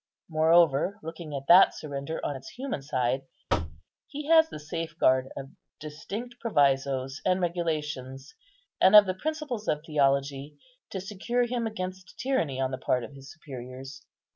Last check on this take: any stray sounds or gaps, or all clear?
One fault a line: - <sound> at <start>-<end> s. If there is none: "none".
- thud at 3.5-3.8 s